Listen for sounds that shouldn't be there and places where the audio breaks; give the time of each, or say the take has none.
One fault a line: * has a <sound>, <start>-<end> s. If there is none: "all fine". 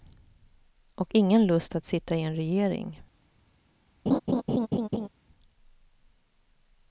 * has a laugh, 4.1-5.1 s